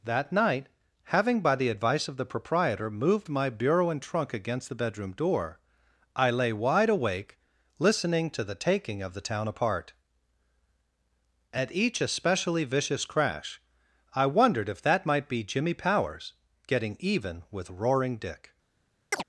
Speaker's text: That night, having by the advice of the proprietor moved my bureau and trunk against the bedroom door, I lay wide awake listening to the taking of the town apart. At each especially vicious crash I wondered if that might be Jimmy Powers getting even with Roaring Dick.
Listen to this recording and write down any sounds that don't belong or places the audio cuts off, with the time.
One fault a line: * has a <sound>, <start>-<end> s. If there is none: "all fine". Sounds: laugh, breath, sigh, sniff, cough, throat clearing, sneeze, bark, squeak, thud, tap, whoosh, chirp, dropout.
* has a chirp, 19.1-19.2 s